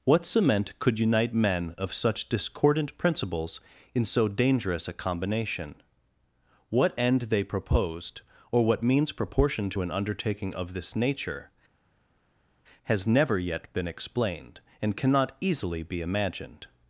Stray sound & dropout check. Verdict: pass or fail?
pass